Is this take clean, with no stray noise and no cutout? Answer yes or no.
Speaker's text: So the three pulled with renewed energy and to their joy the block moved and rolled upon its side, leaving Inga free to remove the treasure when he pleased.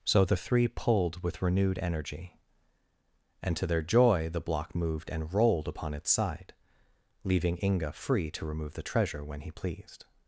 yes